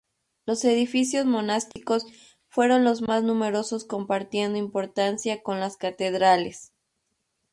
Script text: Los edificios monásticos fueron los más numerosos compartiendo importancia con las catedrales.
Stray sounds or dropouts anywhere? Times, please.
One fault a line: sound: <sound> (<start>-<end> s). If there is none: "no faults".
sound: dropout (1.7-1.8 s)